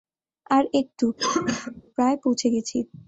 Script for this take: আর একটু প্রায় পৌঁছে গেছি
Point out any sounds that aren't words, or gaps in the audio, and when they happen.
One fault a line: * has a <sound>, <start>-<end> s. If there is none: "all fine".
* has a cough, 1.2-1.8 s